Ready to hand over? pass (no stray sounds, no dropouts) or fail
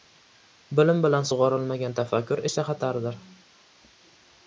pass